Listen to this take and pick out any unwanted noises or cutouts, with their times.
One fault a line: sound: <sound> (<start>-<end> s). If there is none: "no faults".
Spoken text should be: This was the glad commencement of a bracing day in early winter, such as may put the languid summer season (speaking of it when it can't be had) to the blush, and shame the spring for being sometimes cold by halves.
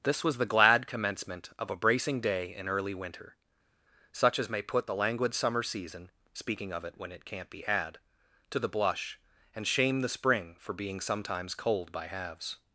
no faults